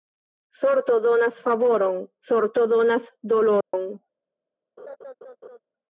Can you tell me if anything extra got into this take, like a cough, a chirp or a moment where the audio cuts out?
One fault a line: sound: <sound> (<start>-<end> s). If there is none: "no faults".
sound: dropout (3.6-3.7 s)
sound: laugh (4.8-5.6 s)